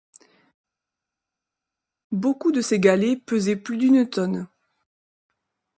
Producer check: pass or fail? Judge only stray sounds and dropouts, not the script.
pass